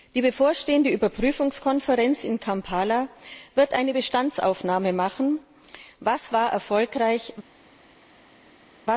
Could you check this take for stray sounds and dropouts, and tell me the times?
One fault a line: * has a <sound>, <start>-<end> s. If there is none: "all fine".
all fine